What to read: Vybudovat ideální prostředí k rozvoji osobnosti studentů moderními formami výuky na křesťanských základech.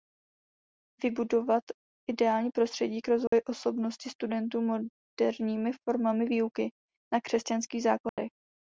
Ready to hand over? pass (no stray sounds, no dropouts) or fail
fail